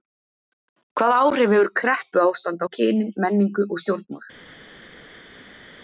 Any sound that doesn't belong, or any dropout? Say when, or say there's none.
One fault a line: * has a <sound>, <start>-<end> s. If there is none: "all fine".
all fine